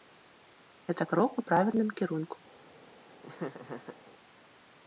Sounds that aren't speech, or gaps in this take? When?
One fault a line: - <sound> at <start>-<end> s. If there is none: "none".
- laugh at 3.2-4.0 s